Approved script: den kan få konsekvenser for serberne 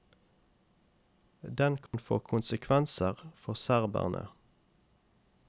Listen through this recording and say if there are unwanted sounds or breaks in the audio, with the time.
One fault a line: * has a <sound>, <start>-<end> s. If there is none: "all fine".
* has a dropout, 1.9-1.9 s